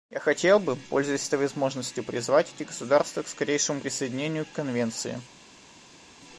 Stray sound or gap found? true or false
false